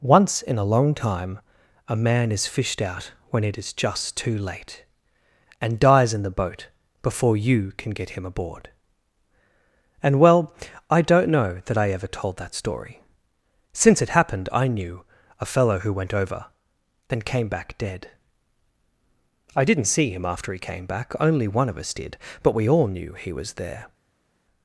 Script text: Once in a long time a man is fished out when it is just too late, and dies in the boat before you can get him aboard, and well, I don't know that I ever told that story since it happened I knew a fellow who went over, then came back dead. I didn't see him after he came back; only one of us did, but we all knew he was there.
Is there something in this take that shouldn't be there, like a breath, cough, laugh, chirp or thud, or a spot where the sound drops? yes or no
no